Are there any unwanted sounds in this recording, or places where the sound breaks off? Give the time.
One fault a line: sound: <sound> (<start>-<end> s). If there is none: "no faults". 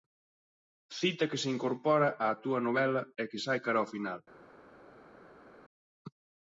no faults